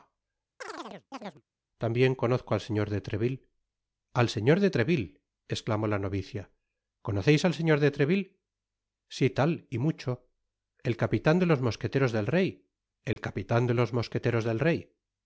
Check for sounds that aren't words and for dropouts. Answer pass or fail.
fail